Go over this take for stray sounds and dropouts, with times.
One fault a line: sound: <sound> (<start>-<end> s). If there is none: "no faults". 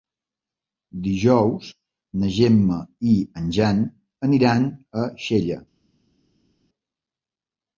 no faults